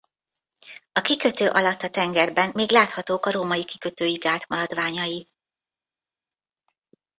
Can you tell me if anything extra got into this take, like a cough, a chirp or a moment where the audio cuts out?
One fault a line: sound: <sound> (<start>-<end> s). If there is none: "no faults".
no faults